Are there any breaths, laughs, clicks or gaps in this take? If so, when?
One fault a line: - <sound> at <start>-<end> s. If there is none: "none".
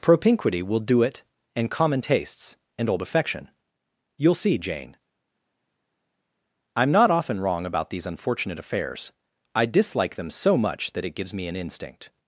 none